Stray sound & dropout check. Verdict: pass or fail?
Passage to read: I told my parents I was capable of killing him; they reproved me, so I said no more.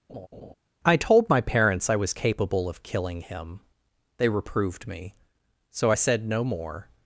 fail